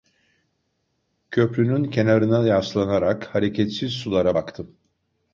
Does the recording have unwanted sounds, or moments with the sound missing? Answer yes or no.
no